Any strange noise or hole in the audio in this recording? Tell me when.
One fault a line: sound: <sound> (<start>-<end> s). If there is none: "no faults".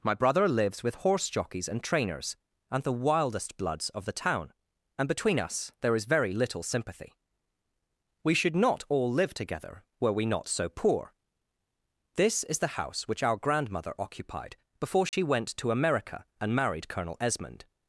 sound: dropout (15.1-15.1 s)